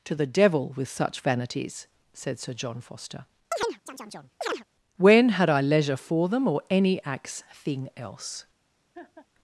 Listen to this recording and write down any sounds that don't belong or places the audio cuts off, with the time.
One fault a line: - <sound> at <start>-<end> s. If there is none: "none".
- chirp at 3.5-4.6 s
- laugh at 8.9-9.3 s